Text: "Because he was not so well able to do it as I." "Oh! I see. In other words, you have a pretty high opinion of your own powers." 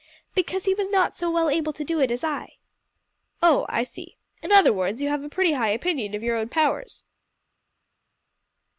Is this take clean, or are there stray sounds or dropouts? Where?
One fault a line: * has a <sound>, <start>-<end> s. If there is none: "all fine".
all fine